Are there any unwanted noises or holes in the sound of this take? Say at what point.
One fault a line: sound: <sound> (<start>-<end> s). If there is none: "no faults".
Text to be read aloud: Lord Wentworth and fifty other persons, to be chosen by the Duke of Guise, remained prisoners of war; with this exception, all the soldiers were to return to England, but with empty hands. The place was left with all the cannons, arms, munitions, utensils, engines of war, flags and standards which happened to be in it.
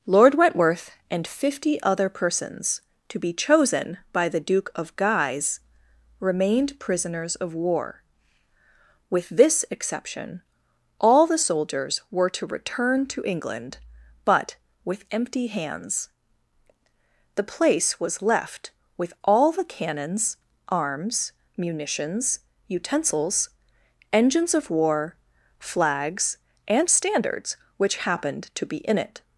no faults